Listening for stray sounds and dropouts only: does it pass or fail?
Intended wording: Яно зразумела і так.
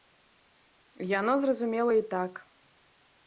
pass